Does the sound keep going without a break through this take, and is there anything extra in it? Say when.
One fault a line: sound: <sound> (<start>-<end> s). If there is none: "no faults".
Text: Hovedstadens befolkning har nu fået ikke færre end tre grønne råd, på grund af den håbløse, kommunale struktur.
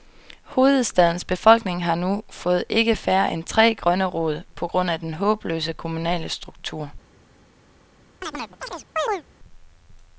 sound: chirp (8.2-9.2 s)